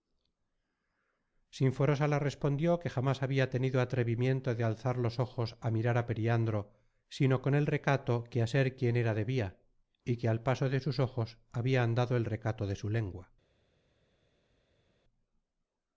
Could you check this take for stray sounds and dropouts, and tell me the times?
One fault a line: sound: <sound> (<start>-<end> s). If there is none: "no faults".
no faults